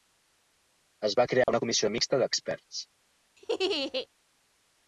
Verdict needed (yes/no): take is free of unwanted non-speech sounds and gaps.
no